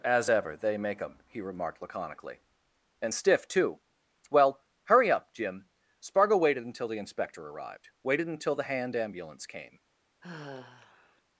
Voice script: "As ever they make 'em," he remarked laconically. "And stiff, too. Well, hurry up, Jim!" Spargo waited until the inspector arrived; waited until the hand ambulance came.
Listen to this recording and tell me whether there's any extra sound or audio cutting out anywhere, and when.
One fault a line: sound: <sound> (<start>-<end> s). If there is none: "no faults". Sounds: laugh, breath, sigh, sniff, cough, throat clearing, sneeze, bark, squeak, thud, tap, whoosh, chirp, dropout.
sound: sigh (10.2-11.2 s)